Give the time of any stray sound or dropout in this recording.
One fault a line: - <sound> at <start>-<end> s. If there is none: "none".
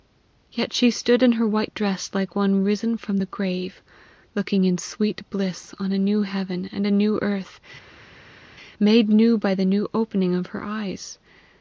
none